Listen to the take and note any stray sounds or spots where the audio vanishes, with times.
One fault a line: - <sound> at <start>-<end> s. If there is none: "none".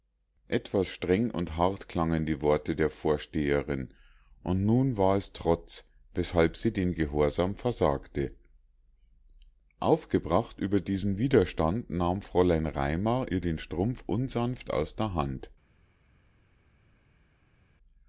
none